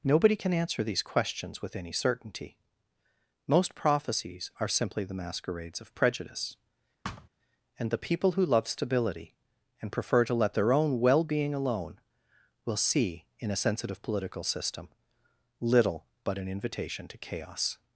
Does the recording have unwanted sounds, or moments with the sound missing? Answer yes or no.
yes